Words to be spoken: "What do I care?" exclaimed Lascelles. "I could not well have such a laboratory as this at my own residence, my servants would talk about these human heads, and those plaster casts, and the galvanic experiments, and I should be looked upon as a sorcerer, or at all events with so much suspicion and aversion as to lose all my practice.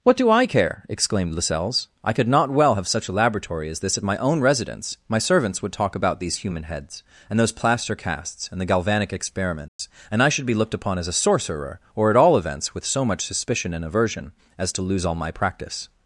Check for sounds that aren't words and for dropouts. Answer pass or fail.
fail